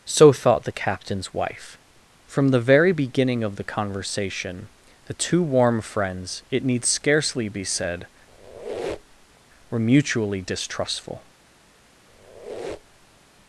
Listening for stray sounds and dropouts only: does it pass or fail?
fail